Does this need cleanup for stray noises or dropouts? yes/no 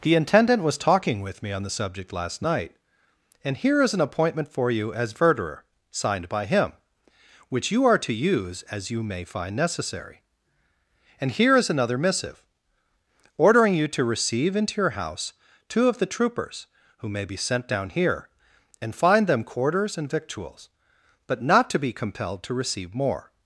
no